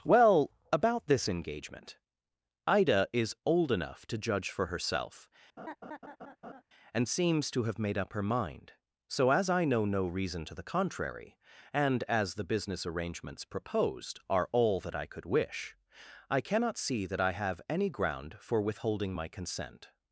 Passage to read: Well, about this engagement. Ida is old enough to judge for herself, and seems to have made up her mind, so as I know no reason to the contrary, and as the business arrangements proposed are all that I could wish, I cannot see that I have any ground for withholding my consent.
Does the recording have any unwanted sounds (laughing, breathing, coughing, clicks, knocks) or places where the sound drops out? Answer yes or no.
yes